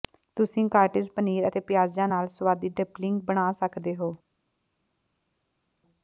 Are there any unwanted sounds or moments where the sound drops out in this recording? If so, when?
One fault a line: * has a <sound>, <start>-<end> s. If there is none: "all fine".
all fine